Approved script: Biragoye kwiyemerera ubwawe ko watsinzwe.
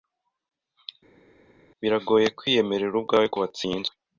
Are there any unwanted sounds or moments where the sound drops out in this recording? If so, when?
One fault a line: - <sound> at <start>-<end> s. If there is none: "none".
none